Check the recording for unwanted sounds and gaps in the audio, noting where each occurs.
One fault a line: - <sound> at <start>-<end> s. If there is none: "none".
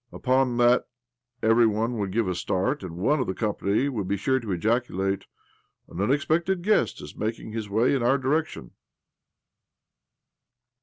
none